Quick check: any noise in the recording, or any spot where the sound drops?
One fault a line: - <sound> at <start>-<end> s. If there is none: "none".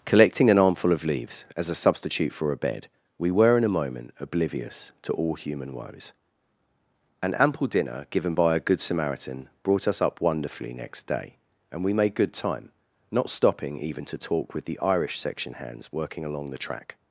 none